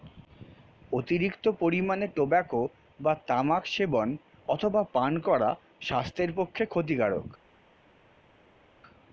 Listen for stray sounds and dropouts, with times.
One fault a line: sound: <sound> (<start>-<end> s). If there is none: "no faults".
no faults